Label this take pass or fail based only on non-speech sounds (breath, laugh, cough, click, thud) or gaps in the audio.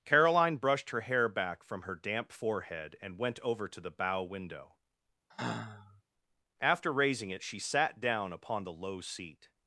fail